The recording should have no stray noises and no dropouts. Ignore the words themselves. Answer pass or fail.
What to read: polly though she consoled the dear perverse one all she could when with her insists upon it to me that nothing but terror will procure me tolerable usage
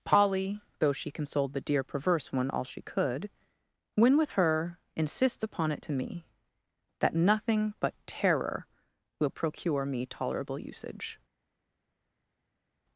pass